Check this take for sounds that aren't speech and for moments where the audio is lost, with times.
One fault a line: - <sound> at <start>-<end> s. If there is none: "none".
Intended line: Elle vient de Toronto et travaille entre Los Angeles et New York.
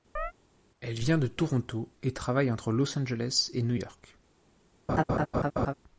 - chirp at 0.2-0.3 s
- laugh at 4.9-5.7 s